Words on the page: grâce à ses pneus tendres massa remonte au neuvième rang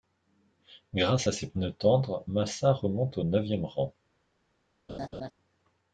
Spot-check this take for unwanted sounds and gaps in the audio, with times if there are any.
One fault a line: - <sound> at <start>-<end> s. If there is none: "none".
- laugh at 4.9-5.3 s